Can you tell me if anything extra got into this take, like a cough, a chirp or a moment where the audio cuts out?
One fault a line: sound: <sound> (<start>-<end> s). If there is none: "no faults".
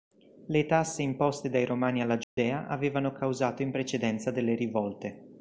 sound: dropout (2.2-2.4 s)